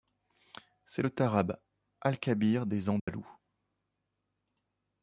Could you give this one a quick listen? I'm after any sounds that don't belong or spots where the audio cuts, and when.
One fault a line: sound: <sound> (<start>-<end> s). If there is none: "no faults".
sound: dropout (3.0-3.1 s)